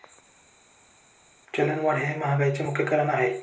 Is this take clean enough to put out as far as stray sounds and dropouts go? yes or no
yes